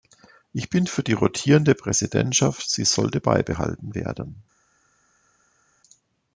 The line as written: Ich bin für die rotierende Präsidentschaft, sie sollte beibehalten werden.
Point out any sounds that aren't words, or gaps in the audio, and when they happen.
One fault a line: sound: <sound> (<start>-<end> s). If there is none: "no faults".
no faults